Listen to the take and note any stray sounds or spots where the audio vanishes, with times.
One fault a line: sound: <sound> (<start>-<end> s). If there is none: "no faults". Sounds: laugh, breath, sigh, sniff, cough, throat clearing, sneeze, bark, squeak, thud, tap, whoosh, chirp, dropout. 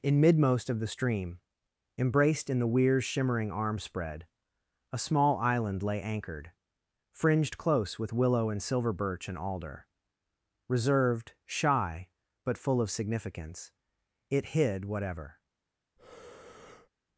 sound: breath (16.0-16.9 s)